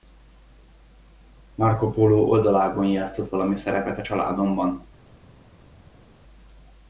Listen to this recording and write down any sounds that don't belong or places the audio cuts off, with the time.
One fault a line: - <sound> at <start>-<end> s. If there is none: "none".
none